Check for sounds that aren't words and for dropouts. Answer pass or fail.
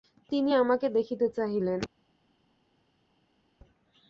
pass